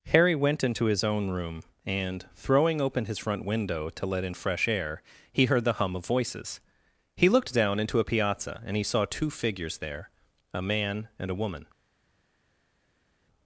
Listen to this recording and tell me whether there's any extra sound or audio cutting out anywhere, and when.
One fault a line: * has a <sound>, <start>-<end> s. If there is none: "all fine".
all fine